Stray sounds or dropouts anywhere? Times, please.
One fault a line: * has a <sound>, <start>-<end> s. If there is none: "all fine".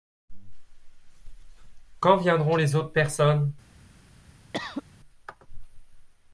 * has a cough, 4.5-4.8 s